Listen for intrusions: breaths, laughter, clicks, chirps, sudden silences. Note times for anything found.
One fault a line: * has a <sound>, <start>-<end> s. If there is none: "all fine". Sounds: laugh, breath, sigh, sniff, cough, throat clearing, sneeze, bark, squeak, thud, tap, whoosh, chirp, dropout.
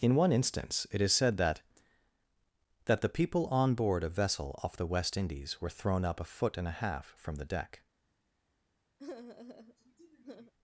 * has a sigh, 9.0-10.5 s